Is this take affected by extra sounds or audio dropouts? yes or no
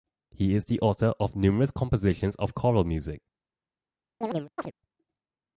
yes